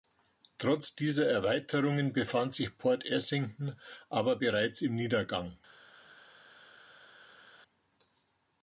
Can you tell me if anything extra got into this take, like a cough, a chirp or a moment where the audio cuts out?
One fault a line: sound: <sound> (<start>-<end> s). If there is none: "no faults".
no faults